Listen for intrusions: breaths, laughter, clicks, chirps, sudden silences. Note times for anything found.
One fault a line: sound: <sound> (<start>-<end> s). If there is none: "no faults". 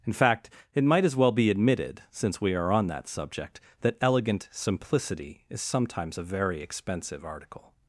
no faults